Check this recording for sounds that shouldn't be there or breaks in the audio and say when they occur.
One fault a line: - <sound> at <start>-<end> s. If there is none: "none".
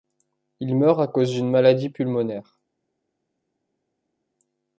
none